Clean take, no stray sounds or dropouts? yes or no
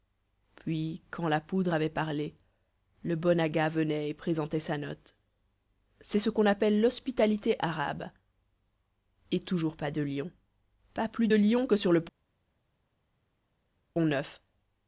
yes